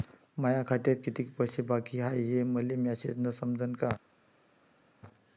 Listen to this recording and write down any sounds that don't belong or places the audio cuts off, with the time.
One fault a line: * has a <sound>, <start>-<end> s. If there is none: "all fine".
all fine